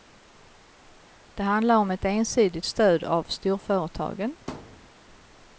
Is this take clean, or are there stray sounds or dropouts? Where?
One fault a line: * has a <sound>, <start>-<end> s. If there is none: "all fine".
* has a thud, 4.5-4.9 s